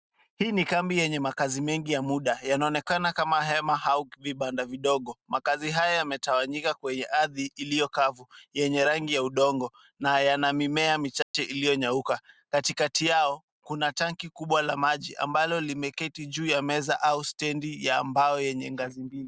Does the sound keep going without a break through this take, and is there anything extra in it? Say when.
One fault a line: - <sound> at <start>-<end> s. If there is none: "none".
- dropout at 11.2-11.3 s